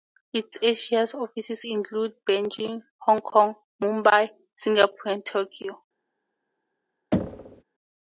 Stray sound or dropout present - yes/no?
yes